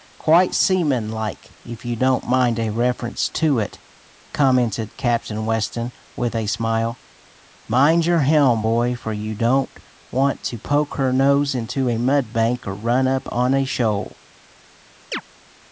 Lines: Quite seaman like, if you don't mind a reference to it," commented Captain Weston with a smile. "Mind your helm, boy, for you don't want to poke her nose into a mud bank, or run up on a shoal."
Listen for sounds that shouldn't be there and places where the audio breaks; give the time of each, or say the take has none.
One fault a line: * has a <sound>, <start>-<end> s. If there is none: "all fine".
* has a chirp, 15.1-15.2 s